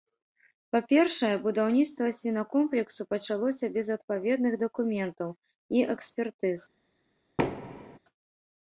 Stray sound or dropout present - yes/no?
yes